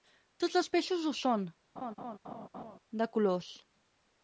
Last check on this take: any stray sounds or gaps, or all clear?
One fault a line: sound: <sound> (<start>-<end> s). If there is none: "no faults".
sound: laugh (1.8-2.8 s)